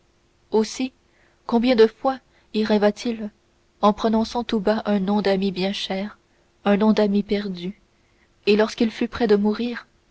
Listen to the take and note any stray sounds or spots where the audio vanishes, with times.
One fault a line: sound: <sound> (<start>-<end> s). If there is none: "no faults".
no faults